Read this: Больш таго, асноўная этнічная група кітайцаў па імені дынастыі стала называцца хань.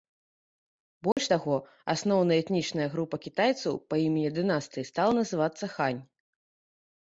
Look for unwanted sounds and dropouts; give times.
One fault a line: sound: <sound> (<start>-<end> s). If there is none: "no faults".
sound: dropout (1.1-1.2 s)